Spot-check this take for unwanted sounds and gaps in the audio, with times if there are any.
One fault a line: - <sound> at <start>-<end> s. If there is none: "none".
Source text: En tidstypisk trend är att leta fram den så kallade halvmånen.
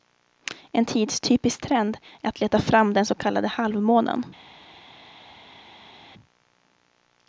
none